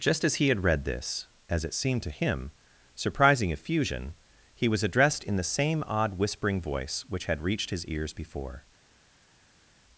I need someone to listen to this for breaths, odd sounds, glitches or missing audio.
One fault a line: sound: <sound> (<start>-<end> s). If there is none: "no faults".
no faults